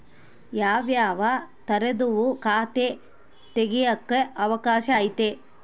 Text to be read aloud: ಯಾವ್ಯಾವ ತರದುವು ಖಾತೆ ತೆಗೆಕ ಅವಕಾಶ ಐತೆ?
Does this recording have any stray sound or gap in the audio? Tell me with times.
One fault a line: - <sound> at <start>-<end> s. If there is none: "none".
none